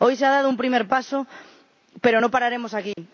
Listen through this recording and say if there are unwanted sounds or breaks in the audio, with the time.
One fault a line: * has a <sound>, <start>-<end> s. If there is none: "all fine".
* has a dropout, 2.9-3.0 s